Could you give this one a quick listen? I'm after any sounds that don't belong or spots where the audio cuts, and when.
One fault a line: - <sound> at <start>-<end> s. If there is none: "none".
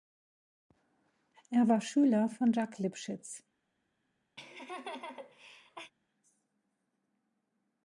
- laugh at 4.4-5.9 s